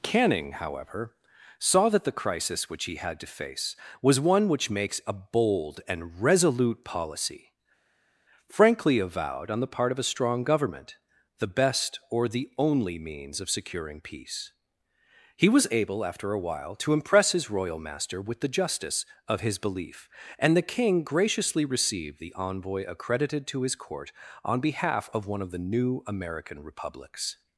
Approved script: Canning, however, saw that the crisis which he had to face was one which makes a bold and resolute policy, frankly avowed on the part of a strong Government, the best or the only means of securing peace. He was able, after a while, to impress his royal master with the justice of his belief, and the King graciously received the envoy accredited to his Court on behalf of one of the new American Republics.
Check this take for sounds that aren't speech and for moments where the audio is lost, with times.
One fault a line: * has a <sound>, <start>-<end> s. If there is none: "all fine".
all fine